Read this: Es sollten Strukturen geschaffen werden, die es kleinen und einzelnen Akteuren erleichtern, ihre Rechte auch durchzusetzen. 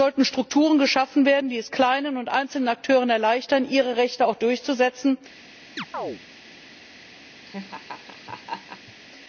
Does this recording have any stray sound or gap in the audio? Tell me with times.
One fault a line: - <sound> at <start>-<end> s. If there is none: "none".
- chirp at 5.8-6.2 s
- laugh at 7.5-8.9 s